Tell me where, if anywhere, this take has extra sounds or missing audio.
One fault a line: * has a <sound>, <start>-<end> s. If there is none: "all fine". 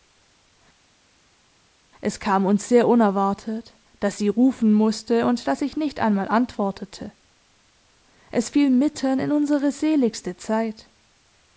all fine